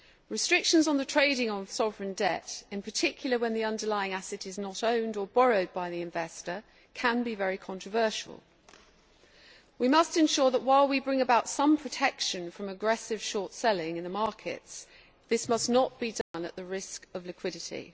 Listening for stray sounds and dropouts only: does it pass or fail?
fail